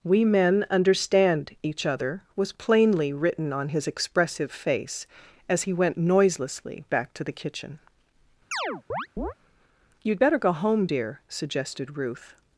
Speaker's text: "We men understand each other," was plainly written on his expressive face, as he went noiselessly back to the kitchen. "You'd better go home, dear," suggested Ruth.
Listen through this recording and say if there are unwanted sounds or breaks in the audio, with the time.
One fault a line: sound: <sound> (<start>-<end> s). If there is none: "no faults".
sound: chirp (8.5-9.3 s)